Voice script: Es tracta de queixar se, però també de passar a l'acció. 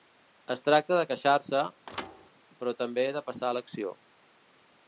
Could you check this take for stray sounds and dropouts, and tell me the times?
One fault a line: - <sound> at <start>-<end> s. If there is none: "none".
- thud at 1.9-2.3 s